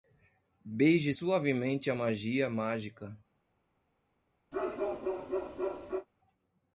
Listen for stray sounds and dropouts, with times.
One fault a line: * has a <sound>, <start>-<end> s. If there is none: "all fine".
* has a bark, 4.5-6.1 s